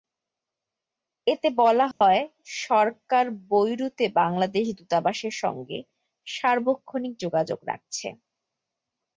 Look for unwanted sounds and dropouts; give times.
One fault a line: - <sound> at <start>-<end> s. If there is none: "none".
- dropout at 1.9-2.0 s